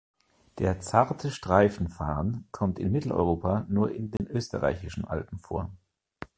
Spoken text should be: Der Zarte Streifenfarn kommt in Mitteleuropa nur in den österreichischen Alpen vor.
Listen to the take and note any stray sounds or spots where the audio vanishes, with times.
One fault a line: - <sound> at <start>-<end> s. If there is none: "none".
- dropout at 4.2-4.2 s